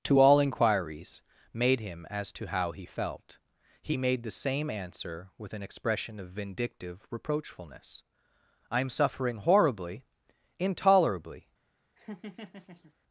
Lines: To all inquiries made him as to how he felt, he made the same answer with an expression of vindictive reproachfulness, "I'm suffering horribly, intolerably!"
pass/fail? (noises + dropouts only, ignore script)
fail